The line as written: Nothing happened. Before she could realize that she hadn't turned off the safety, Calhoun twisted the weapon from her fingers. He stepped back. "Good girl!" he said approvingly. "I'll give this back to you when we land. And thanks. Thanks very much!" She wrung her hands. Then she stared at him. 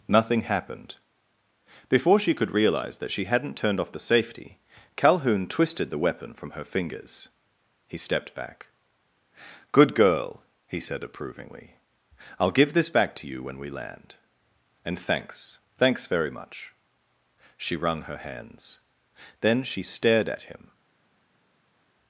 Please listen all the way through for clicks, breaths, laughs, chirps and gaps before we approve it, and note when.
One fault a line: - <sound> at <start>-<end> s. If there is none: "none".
none